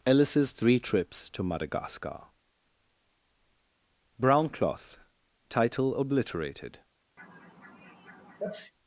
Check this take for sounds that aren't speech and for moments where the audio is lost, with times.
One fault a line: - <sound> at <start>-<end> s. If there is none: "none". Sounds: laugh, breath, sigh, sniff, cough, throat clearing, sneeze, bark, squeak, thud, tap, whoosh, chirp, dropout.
- sneeze at 7.2-8.7 s